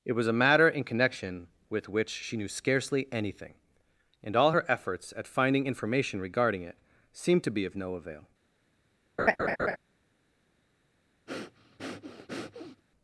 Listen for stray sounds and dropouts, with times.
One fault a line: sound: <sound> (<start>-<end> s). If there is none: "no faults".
sound: laugh (9.2-9.8 s)
sound: breath (11.3-12.8 s)